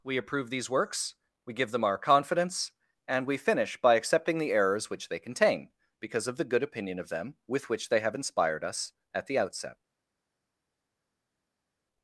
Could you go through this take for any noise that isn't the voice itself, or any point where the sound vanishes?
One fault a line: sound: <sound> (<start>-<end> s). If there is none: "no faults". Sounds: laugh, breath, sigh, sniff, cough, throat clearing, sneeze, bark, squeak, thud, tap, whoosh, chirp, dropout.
no faults